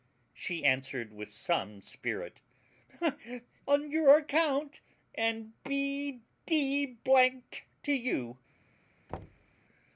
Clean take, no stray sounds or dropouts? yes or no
no